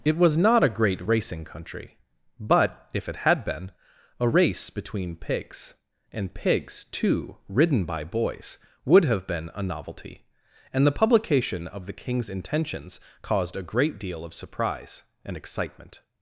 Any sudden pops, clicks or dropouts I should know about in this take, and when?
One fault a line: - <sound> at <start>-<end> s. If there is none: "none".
none